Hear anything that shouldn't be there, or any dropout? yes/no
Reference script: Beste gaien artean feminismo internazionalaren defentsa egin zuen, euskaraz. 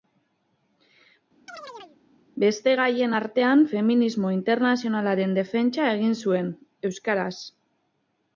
yes